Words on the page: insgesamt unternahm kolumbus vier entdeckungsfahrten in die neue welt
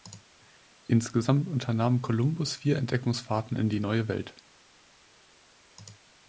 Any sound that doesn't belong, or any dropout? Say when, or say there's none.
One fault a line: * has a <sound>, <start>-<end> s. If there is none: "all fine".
all fine